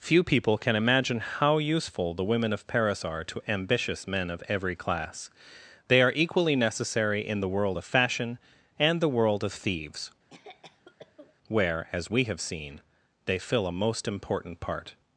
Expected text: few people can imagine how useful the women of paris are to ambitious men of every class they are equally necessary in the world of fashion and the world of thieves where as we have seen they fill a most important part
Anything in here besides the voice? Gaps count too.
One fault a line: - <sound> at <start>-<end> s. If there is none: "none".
- cough at 10.3-11.4 s